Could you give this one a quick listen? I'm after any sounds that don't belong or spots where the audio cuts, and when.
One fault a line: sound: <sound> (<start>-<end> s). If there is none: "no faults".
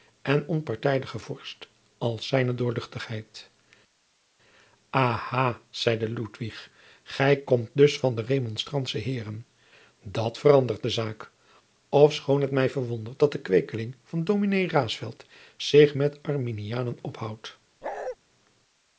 sound: bark (17.8-18.2 s)